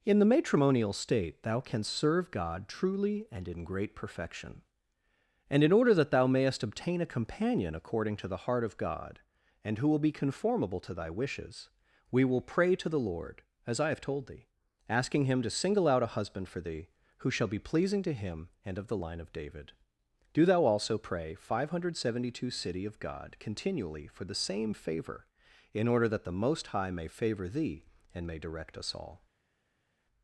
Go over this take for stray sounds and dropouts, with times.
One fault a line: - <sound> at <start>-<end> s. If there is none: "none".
none